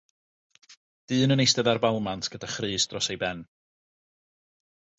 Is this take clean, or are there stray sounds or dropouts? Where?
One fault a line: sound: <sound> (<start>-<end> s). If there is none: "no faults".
no faults